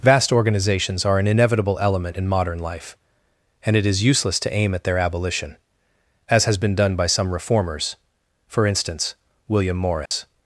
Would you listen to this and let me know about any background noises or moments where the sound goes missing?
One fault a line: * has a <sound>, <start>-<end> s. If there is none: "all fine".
* has a dropout, 10.1-10.1 s